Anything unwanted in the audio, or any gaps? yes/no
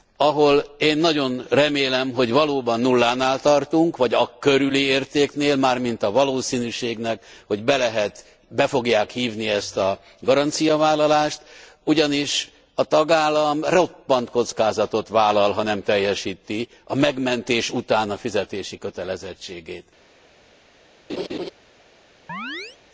yes